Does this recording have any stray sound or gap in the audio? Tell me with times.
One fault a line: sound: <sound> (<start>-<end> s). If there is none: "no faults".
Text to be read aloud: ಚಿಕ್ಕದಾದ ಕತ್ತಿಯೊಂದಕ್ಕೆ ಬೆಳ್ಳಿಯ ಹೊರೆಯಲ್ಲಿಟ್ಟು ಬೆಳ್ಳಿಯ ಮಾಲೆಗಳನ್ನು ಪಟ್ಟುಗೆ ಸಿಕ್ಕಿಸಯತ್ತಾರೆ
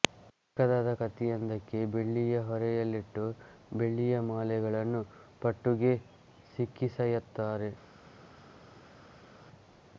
no faults